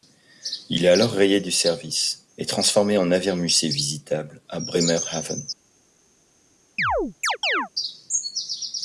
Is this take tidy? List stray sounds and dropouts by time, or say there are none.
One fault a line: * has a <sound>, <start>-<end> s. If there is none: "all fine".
* has a chirp, 6.8-7.7 s